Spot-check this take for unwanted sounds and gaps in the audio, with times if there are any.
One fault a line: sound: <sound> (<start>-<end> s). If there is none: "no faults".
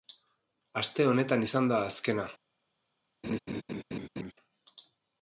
sound: laugh (3.2-4.3 s)